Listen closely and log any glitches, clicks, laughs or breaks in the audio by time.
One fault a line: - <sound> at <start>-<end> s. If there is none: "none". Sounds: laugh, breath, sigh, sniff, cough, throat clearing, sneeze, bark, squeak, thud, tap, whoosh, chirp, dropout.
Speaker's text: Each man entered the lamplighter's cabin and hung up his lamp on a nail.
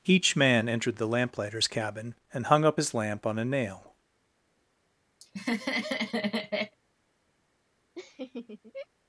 - laugh at 5.2-6.8 s
- laugh at 8.0-8.9 s